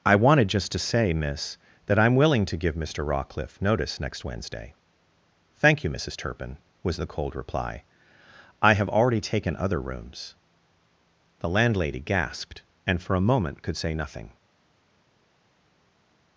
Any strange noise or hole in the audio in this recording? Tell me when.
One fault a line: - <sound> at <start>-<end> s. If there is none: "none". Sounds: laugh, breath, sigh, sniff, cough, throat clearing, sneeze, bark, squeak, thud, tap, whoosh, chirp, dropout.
none